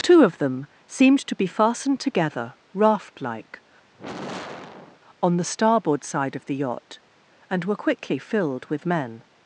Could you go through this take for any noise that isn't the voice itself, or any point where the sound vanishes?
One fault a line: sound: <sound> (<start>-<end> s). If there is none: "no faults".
sound: sigh (3.9-5.0 s)